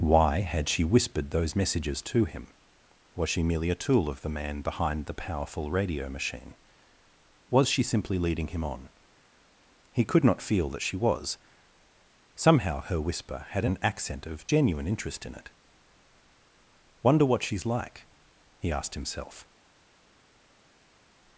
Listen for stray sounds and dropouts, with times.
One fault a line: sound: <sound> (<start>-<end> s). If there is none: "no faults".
no faults